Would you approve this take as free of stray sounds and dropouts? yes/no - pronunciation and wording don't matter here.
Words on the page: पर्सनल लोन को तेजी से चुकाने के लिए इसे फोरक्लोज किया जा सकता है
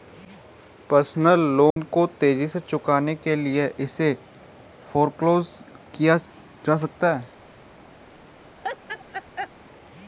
no